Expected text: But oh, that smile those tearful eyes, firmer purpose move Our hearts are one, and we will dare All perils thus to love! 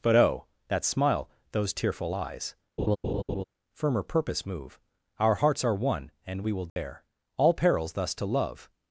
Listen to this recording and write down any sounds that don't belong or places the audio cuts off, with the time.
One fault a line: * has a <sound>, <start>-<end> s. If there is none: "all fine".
* has a laugh, 2.8-3.4 s
* has a dropout, 6.7-6.8 s